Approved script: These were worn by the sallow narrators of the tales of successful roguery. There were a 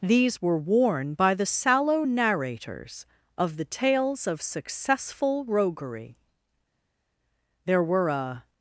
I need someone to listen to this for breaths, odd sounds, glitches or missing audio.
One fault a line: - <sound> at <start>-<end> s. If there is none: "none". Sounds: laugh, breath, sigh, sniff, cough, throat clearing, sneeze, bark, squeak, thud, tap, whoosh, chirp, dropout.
none